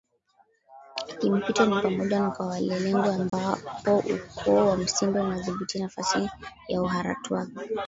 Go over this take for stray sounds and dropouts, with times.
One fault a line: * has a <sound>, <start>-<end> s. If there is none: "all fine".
* has a dropout, 3.3-3.3 s